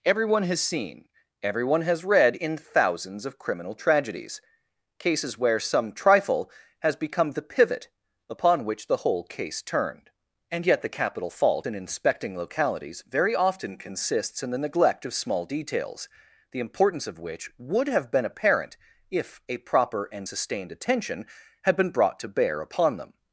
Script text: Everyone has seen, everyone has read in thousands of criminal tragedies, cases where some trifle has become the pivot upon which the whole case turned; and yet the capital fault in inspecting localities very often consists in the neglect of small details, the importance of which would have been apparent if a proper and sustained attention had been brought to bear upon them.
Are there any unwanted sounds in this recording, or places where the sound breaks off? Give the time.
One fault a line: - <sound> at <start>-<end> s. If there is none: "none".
none